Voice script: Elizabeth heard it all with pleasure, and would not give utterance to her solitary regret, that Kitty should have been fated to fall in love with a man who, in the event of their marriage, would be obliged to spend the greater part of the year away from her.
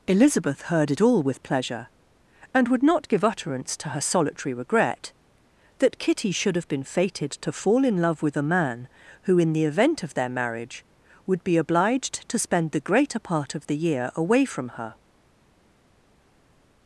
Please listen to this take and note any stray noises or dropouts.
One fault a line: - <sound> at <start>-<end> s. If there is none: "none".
none